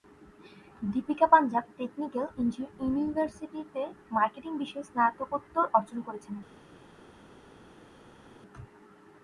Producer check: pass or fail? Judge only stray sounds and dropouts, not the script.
pass